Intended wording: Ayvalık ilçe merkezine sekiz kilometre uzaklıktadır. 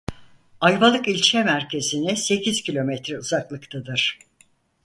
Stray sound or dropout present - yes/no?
no